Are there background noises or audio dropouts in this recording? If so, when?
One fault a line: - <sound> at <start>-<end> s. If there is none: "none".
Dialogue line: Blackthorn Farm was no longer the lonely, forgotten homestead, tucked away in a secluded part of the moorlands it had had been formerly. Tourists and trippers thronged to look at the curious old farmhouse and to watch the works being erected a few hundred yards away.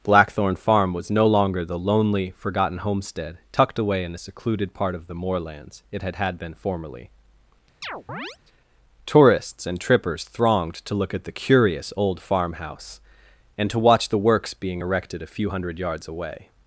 - chirp at 7.8-8.4 s